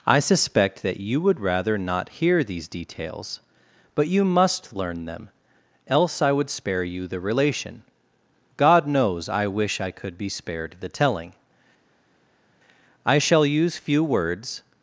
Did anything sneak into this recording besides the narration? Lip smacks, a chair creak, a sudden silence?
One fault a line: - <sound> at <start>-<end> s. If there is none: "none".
none